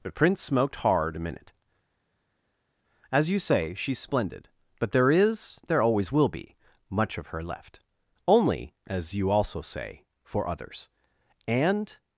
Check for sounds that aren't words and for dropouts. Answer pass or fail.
pass